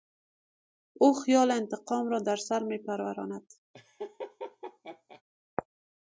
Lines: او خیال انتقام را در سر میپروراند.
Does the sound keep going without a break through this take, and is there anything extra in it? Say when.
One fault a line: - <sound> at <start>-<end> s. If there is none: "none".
- laugh at 3.7-5.2 s